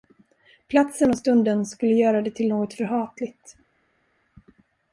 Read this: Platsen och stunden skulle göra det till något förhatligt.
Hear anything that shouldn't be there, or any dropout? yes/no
no